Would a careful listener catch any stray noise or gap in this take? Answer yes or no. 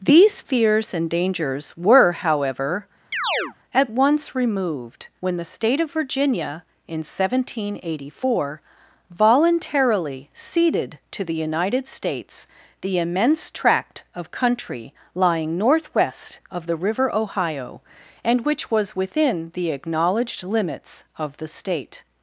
yes